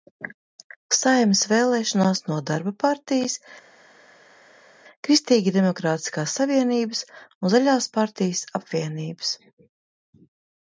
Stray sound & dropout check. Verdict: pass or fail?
pass